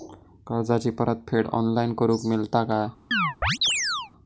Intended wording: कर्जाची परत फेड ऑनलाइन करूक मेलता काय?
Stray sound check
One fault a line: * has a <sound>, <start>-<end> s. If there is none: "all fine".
* has a chirp, 3.1-4.1 s